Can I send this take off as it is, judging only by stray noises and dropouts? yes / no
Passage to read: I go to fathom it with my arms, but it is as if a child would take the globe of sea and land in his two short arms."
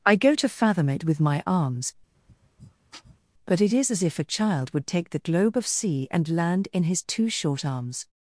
no